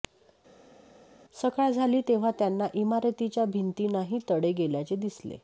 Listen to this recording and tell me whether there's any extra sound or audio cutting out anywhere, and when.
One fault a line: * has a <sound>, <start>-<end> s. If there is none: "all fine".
all fine